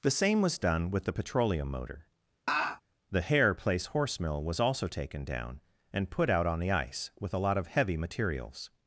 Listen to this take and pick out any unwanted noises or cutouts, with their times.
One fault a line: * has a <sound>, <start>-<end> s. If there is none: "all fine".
* has a laugh, 2.5-2.8 s